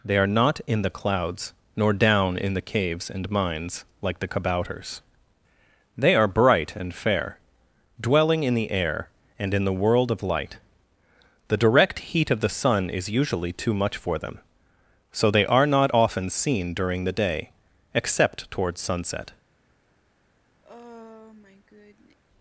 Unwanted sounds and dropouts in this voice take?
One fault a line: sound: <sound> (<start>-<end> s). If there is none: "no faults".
sound: sigh (20.6-22.2 s)